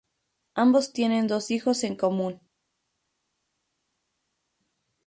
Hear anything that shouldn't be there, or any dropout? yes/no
no